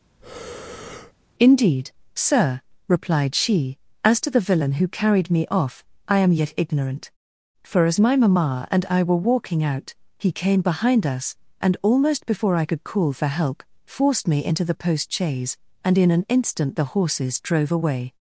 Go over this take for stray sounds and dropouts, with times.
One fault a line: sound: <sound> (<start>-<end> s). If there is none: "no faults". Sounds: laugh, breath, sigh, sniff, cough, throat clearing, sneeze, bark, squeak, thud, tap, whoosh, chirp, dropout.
sound: breath (0.2-1.1 s)